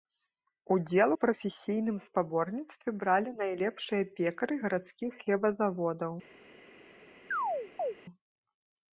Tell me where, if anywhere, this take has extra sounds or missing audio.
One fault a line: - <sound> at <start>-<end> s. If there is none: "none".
- chirp at 7.3-7.9 s